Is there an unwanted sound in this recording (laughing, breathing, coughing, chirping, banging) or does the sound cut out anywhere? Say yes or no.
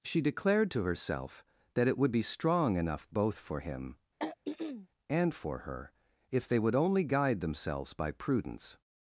yes